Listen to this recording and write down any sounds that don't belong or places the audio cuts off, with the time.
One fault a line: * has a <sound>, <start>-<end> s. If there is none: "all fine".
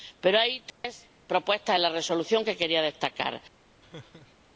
* has a dropout, 0.7-0.8 s
* has a laugh, 3.8-4.5 s